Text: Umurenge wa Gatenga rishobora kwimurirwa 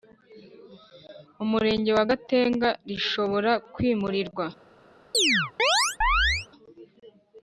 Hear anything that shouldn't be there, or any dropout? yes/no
yes